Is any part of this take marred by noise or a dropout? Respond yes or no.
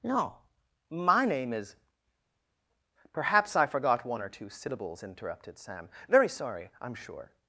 no